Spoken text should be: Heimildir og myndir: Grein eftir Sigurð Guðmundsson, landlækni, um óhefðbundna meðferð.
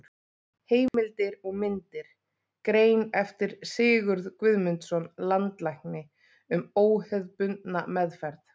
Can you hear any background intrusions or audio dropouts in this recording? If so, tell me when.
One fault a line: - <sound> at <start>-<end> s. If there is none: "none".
- dropout at 0.9-0.9 s